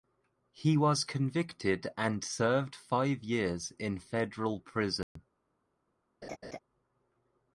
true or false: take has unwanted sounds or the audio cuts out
true